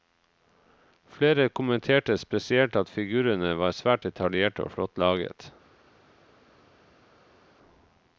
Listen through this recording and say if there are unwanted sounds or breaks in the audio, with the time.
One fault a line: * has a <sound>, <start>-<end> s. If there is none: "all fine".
all fine